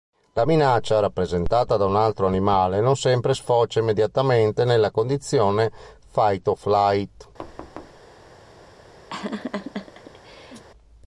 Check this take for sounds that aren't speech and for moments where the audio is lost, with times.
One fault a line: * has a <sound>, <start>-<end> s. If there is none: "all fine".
* has a thud, 7.4-8.0 s
* has a laugh, 9.1-10.6 s